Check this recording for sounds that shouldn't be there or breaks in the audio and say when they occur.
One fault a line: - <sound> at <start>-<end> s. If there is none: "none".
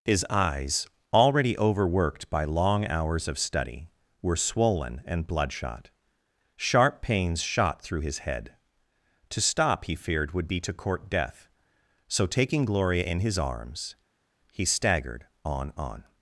none